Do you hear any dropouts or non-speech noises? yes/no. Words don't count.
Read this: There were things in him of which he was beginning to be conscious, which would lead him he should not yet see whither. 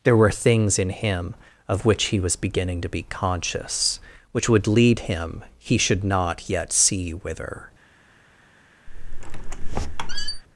yes